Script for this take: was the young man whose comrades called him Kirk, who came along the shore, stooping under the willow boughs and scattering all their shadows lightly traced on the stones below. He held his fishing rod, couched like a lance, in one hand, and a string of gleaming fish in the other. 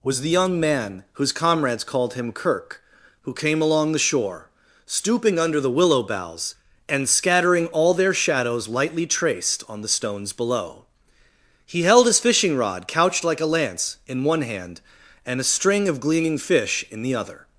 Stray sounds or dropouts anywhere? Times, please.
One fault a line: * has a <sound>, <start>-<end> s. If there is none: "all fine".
all fine